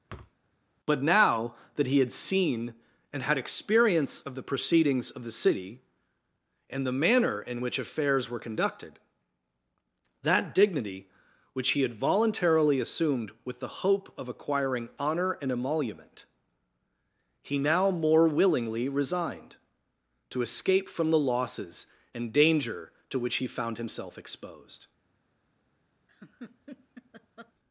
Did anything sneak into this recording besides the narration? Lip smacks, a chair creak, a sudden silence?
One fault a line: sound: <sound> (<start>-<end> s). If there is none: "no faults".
sound: thud (0.1-0.4 s)
sound: laugh (26.1-27.5 s)